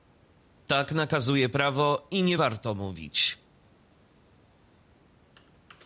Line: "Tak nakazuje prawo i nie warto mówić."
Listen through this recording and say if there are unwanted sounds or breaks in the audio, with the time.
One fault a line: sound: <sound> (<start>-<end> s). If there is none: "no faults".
no faults